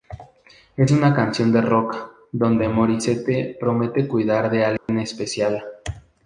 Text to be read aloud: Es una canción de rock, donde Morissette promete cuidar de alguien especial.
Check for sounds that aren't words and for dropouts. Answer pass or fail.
fail